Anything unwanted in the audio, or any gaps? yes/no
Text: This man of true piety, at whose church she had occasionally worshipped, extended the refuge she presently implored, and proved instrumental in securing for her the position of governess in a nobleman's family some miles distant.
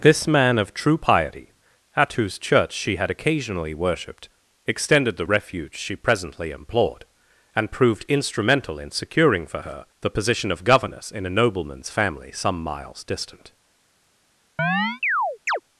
yes